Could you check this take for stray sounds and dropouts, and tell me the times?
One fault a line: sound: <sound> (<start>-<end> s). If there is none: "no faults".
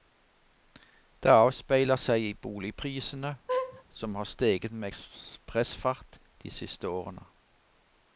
sound: laugh (3.5-3.8 s)